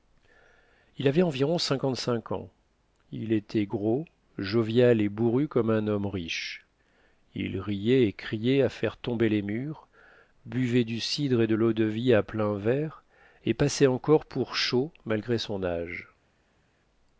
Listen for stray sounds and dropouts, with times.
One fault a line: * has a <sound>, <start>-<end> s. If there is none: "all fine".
all fine